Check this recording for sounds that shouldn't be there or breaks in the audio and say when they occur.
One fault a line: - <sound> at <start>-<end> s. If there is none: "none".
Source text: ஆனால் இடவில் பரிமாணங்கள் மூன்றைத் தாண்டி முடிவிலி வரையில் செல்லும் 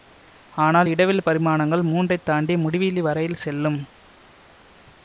none